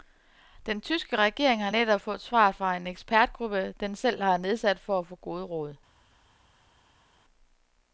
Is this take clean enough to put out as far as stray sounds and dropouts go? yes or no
yes